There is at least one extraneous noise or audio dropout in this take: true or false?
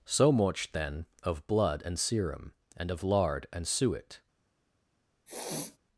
true